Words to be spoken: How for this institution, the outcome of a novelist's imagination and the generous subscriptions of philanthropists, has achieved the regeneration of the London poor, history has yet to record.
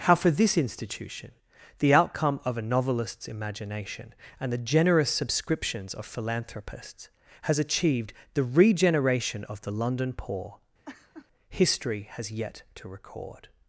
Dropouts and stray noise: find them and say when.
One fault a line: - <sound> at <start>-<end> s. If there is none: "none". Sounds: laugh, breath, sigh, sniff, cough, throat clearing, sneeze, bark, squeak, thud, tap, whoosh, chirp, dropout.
- laugh at 10.8-11.3 s